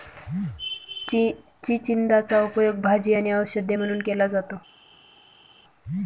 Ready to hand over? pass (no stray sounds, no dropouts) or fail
pass